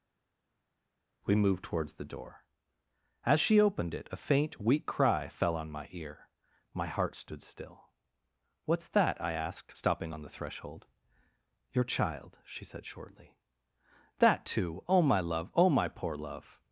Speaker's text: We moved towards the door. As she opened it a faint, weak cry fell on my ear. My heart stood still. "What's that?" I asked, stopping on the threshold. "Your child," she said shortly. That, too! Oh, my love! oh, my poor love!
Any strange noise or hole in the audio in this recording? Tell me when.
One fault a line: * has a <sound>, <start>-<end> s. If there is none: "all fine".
all fine